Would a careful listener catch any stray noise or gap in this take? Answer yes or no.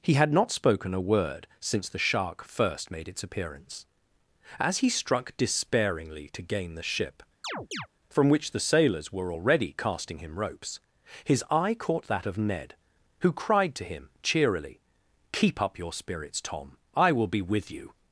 yes